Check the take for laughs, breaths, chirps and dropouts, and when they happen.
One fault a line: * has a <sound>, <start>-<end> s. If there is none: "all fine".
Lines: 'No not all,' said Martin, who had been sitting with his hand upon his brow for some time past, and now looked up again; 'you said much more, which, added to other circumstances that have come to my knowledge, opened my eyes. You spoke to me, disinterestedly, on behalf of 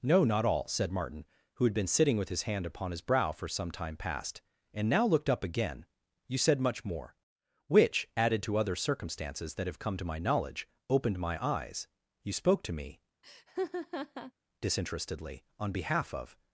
* has a laugh, 13.2-14.3 s